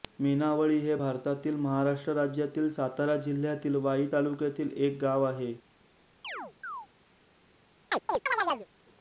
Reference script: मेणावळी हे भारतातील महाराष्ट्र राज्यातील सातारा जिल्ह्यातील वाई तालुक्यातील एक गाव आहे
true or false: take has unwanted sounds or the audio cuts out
true